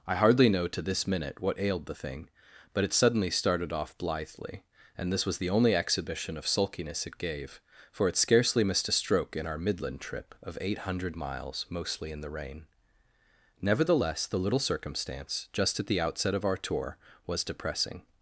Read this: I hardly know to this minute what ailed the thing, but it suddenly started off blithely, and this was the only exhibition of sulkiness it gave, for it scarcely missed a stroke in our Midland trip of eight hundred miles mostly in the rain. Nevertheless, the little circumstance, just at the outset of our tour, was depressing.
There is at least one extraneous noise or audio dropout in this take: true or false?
false